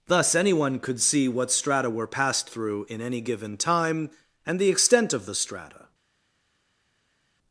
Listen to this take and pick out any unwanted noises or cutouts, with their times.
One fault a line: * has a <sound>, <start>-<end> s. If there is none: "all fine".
all fine